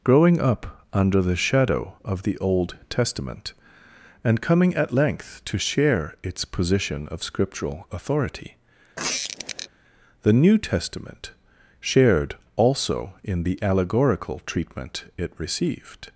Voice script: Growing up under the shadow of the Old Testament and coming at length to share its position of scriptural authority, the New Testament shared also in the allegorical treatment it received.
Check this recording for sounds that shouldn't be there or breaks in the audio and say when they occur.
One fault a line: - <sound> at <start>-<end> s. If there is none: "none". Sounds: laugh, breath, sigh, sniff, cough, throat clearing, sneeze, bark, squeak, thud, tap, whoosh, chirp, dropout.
- squeak at 9.0-9.7 s